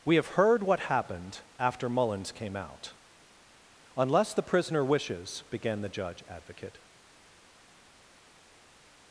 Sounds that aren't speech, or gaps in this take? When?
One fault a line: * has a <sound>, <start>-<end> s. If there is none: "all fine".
all fine